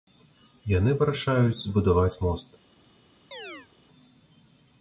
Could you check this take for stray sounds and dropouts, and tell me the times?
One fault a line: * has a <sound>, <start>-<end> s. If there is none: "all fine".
* has a chirp, 3.3-3.7 s